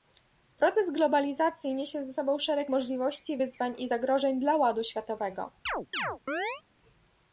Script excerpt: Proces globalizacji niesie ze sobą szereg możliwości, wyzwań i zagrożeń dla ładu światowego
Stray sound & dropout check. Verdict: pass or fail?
fail